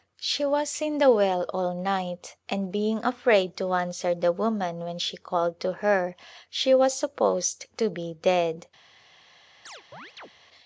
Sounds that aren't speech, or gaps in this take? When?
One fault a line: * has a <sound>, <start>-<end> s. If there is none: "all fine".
* has a chirp, 9.7-10.3 s